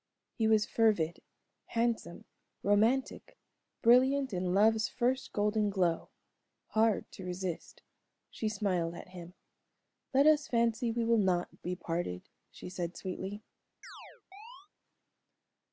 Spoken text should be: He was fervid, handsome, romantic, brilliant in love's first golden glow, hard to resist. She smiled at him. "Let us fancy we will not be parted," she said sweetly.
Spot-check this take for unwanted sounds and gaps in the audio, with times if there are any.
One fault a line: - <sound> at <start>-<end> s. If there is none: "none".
- chirp at 13.8-14.7 s